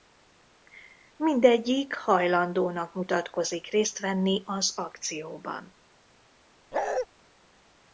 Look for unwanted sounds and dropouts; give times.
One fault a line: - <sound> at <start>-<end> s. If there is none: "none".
- bark at 6.7-7.1 s